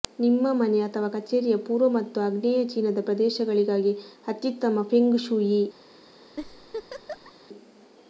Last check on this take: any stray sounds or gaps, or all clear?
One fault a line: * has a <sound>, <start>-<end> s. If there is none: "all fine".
* has a laugh, 6.4-7.3 s